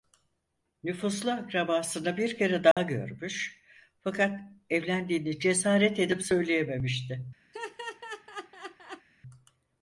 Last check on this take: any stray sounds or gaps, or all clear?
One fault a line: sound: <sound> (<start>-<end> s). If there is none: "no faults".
sound: dropout (2.7-2.8 s)
sound: laugh (7.5-9.1 s)